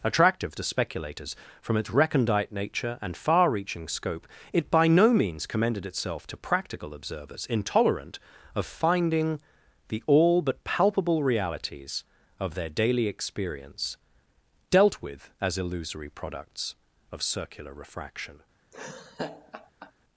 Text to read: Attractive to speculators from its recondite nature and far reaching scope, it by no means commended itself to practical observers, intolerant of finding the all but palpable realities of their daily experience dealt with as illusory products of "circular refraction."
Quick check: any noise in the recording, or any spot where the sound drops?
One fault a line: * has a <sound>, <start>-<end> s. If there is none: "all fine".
* has a laugh, 18.7-19.9 s